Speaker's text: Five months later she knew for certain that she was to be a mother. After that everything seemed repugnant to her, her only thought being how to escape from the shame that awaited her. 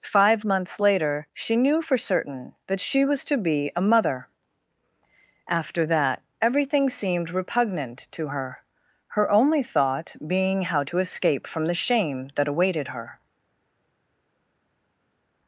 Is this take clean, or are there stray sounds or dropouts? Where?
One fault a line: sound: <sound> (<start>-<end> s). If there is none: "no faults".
no faults